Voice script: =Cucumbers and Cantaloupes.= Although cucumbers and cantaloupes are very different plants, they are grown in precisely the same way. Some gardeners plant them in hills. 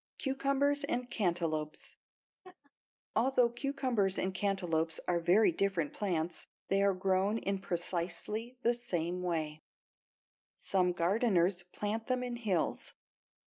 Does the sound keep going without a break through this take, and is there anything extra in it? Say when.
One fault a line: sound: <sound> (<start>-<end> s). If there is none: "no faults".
sound: laugh (2.4-2.7 s)